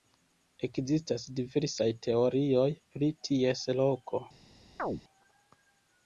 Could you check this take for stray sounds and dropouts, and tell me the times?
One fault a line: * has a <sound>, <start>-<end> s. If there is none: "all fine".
* has a chirp, 4.8-5.0 s